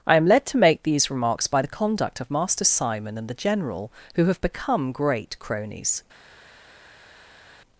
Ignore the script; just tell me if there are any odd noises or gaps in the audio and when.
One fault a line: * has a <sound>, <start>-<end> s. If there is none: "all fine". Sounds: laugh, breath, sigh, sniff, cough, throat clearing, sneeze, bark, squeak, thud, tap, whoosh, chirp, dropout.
all fine